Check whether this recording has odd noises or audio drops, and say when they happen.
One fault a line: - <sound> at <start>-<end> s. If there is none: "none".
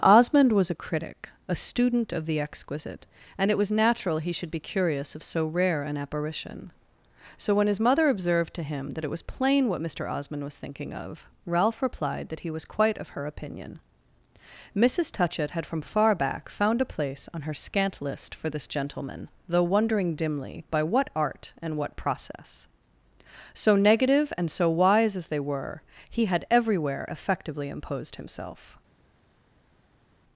none